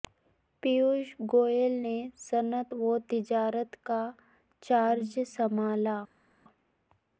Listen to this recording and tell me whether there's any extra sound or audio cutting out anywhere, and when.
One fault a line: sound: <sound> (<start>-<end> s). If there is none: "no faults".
no faults